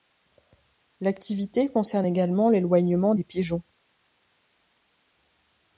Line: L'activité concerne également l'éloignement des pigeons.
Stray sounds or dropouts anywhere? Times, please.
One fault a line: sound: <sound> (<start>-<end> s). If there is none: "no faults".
no faults